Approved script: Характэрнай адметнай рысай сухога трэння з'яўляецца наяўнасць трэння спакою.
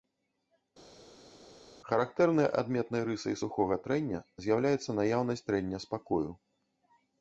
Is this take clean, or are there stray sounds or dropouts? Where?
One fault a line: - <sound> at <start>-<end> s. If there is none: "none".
none